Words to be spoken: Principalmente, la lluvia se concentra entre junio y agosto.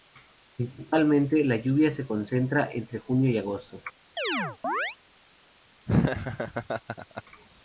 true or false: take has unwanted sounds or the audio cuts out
true